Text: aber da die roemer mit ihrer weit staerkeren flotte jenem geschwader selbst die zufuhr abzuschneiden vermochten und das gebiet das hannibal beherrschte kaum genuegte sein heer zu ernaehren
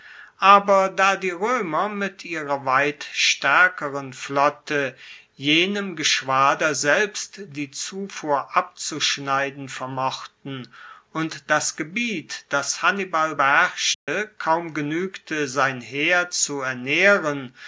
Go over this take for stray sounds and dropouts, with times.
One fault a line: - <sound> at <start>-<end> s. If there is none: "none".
- dropout at 13.9-14.1 s